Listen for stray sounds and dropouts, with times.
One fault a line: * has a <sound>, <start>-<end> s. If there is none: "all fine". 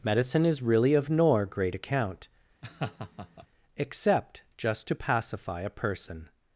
* has a laugh, 2.6-3.5 s